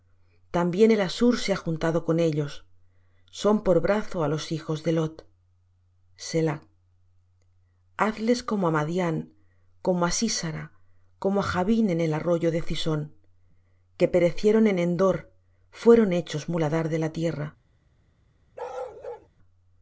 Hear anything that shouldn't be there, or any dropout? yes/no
yes